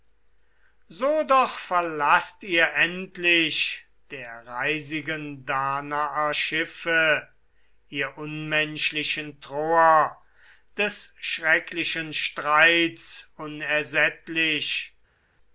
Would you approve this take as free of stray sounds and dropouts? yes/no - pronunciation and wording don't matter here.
yes